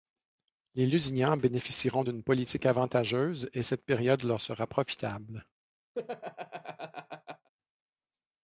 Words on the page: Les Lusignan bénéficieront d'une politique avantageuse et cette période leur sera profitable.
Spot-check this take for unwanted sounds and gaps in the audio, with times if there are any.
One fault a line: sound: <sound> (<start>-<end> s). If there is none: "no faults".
sound: laugh (5.9-7.5 s)